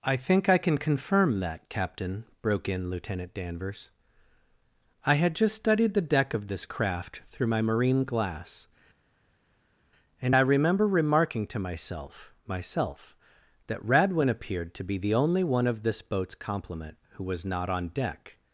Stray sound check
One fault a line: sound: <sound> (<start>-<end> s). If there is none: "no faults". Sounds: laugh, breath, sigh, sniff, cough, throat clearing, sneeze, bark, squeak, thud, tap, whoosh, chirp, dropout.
no faults